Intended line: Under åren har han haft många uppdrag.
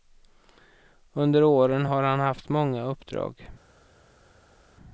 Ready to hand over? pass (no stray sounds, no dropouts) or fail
pass